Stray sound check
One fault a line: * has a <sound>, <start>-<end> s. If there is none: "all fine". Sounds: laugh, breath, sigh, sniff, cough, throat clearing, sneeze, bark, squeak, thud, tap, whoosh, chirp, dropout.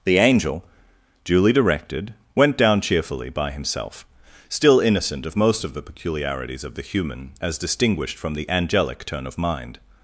all fine